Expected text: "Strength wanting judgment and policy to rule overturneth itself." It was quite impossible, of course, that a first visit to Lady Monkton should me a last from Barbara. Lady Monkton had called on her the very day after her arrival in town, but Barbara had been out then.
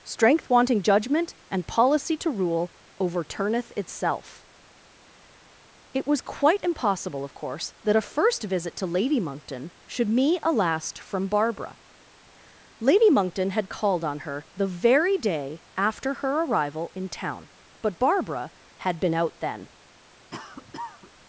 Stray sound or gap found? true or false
true